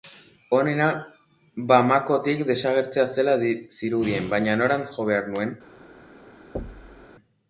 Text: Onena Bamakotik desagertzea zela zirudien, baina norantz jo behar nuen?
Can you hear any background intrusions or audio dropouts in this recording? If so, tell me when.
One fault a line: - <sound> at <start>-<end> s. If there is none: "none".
- thud at 6.5-7.1 s